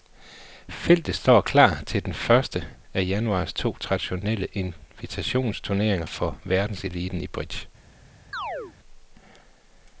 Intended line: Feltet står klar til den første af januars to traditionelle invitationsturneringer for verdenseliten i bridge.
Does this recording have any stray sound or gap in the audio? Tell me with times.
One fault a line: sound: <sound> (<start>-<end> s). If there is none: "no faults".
sound: chirp (8.3-8.7 s)